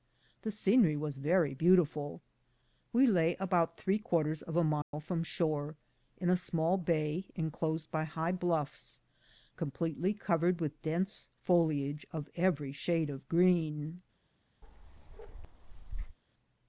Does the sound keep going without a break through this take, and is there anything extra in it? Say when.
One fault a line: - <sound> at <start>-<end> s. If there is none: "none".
- dropout at 4.8-4.9 s
- bark at 14.6-16.2 s